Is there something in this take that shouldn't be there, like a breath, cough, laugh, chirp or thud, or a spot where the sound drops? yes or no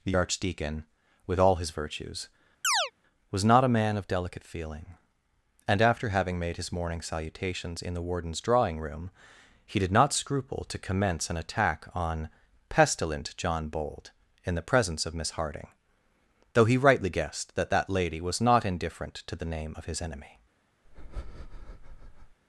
yes